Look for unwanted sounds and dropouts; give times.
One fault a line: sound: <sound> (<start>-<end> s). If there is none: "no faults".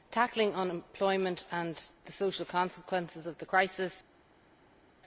no faults